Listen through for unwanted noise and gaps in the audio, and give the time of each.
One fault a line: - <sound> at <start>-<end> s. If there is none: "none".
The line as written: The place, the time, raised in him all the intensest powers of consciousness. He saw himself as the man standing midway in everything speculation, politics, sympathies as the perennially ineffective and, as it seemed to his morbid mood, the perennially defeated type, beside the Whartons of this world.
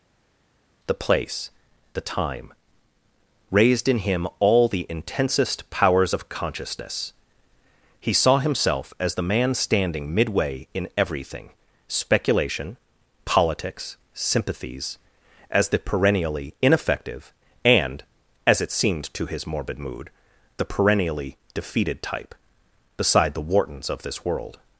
none